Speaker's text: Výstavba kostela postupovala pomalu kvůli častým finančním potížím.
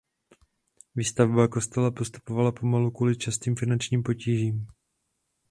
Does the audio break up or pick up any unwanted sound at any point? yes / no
no